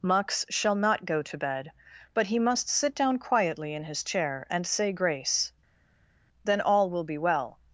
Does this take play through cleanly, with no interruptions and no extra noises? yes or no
yes